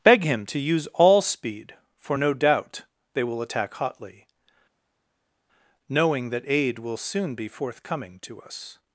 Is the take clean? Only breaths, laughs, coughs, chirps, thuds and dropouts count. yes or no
yes